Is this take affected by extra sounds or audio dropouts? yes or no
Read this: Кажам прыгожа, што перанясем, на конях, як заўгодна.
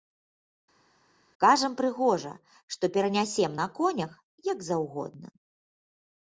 no